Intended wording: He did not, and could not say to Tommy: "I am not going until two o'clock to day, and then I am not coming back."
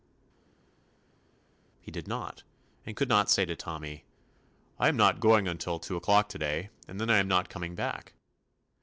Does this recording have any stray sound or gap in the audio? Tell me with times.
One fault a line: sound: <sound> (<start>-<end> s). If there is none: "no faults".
no faults